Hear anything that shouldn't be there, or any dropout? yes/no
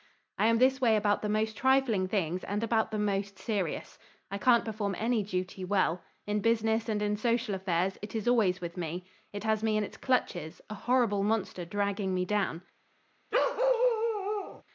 yes